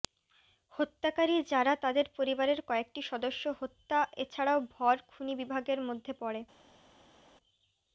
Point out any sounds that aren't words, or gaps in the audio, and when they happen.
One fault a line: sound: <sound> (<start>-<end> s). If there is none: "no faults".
no faults